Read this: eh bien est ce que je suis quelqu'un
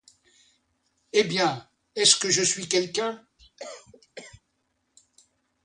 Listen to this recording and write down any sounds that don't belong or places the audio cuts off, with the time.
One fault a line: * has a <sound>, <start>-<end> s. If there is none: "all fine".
* has a cough, 3.4-4.4 s